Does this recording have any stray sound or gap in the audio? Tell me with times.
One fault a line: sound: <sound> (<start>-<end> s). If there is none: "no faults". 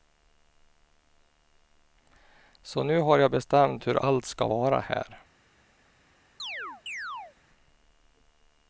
sound: chirp (6.4-7.4 s)